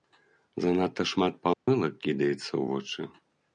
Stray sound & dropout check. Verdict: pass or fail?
fail